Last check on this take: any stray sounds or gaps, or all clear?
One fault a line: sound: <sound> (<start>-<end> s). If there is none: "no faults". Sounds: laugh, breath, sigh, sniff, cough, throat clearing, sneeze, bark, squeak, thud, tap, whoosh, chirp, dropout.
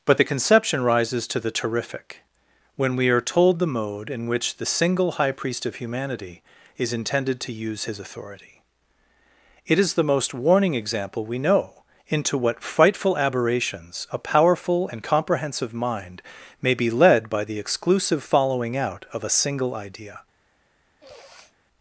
sound: sniff (21.0-21.6 s)